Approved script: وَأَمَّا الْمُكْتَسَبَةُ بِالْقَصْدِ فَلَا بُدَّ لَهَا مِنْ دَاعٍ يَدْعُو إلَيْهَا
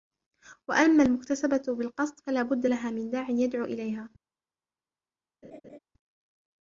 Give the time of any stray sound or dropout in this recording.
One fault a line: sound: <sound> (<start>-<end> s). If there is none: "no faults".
sound: laugh (5.4-5.8 s)